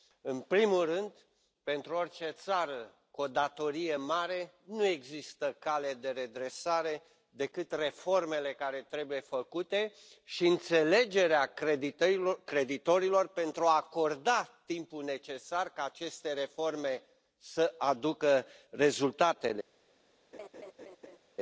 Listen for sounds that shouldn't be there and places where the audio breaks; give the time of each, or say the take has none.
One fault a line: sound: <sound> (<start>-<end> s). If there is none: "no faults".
sound: laugh (20.3-21.2 s)